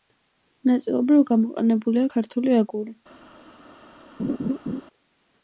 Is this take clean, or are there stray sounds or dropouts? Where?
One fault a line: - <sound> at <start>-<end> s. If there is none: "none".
- laugh at 4.2-4.8 s